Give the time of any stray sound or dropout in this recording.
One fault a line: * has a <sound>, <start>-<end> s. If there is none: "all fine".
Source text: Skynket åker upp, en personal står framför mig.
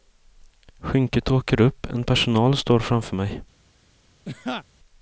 * has a laugh, 4.2-4.6 s